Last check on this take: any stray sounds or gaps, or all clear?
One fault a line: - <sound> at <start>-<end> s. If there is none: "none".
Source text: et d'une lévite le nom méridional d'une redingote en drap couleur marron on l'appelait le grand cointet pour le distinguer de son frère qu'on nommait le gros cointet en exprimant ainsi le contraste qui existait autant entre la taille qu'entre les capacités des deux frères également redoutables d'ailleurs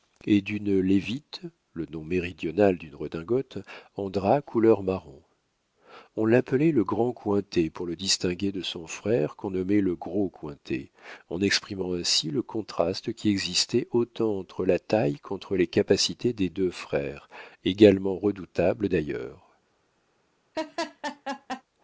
- laugh at 20.5-21.6 s